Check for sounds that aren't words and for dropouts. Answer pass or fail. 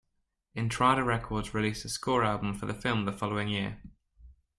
pass